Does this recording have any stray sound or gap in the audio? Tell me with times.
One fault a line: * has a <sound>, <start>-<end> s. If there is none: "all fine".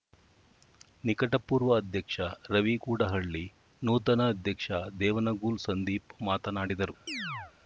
* has a chirp, 7.1-7.5 s